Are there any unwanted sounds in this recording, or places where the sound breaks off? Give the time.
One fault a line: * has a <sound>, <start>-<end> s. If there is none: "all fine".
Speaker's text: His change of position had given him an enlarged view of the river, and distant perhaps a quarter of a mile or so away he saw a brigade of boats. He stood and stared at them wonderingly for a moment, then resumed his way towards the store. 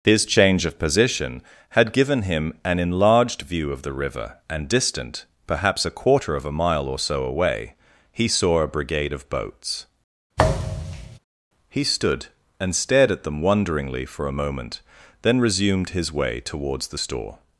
* has a thud, 10.4-11.2 s